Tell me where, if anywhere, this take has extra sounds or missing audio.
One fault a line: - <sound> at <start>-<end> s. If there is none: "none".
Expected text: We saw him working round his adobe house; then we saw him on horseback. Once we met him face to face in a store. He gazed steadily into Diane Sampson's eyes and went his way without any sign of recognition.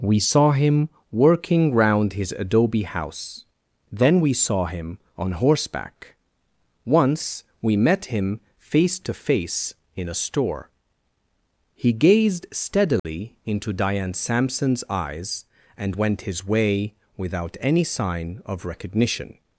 - dropout at 13.0-13.0 s